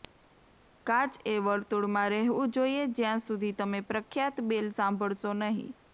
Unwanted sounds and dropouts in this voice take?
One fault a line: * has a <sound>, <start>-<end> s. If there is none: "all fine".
all fine